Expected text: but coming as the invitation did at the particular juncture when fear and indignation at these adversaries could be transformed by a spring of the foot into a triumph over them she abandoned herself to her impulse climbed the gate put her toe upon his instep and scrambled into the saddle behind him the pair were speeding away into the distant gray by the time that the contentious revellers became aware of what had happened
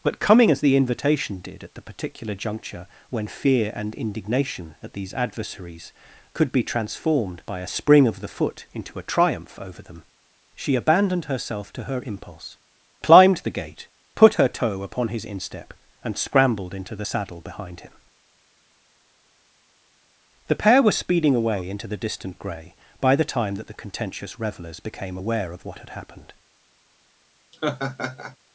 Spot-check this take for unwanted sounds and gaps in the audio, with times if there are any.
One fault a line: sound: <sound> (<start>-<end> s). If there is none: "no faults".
sound: laugh (27.5-28.4 s)